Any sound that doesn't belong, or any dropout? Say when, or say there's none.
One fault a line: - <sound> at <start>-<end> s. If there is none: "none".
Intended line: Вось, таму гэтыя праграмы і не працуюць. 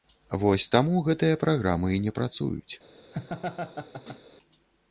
- laugh at 3.1-4.2 s